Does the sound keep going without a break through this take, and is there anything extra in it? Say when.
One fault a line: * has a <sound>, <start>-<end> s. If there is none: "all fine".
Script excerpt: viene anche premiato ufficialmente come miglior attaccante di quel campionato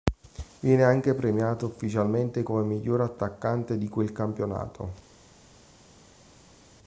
all fine